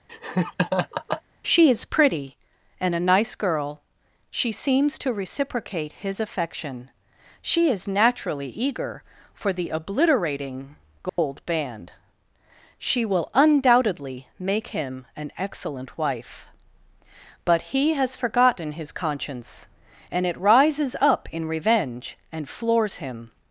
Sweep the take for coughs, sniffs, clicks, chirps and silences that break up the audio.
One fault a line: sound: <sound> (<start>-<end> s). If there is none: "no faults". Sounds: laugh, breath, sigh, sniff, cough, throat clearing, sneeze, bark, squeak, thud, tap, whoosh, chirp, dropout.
sound: laugh (0.1-1.2 s)
sound: dropout (11.1-11.2 s)